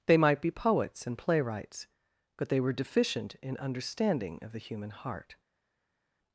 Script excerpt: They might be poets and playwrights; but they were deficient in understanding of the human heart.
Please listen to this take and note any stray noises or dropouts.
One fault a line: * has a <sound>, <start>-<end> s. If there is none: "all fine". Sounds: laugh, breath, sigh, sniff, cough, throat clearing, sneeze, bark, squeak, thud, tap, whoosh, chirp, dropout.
all fine